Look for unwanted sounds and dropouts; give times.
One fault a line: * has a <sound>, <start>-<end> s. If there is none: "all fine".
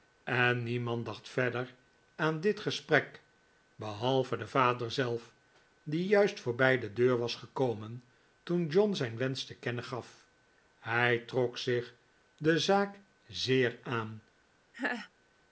* has a laugh, 14.7-15.1 s